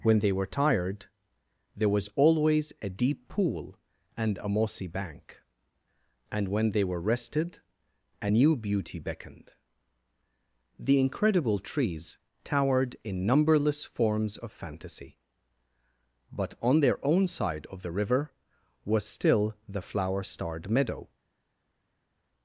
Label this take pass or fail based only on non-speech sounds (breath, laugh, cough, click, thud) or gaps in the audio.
pass